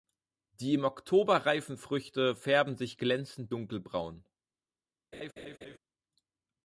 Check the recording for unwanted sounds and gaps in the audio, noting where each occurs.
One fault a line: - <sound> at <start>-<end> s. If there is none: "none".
- laugh at 5.1-5.8 s